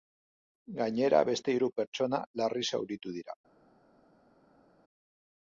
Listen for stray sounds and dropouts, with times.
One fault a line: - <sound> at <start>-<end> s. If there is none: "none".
none